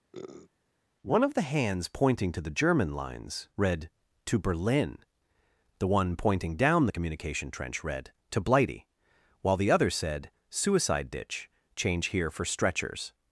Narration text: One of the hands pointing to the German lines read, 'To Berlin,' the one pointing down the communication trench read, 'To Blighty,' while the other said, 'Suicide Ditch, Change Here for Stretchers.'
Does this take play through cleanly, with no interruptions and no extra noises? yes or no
no